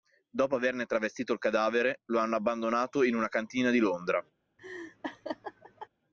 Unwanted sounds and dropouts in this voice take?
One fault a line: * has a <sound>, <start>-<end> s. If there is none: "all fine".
* has a laugh, 4.6-5.9 s